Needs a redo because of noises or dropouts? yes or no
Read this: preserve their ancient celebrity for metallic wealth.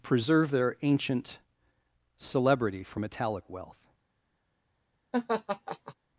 yes